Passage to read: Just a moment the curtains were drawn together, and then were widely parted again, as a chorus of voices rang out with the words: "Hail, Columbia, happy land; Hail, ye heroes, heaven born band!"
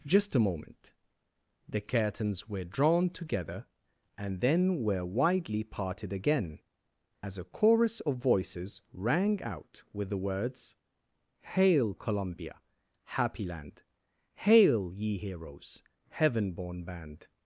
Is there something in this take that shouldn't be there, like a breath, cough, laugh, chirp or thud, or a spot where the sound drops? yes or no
no